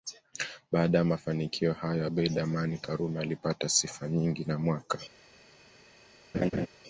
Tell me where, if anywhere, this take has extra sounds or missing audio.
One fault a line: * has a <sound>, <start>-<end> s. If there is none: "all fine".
* has a laugh, 6.3-6.7 s